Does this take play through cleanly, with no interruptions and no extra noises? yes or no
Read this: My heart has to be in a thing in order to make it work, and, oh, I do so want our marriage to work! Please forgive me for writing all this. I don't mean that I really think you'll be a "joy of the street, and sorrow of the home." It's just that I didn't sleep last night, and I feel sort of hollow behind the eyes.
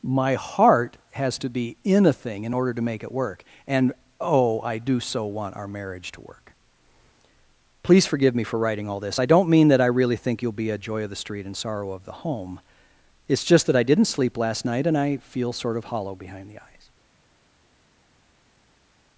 yes